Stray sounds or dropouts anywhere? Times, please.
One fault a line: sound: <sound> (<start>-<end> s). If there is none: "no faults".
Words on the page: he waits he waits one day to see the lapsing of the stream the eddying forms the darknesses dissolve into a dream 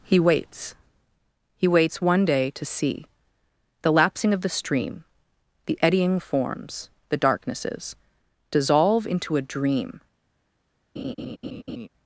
sound: laugh (11.0-11.9 s)